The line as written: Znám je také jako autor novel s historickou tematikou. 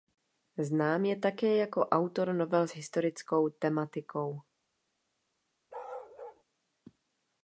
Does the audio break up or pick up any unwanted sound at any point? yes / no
yes